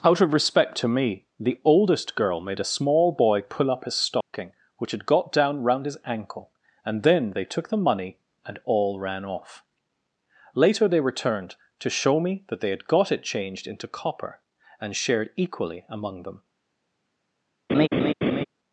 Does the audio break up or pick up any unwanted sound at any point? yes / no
yes